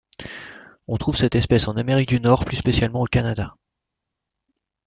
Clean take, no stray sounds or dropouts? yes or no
yes